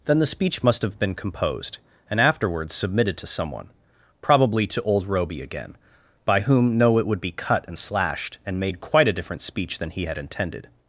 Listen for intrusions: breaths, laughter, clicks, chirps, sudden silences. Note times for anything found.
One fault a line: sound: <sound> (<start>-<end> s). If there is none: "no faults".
no faults